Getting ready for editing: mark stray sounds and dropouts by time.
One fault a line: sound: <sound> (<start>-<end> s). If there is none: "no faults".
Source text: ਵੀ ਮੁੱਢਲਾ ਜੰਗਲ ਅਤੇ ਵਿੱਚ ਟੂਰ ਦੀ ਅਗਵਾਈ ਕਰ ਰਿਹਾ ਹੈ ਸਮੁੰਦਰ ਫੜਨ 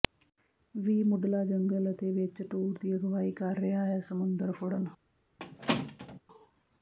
sound: squeak (5.4-6.2 s)